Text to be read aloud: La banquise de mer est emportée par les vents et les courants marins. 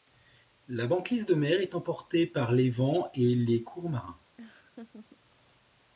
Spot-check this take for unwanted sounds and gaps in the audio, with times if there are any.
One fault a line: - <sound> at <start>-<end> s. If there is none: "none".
- laugh at 4.4-5.2 s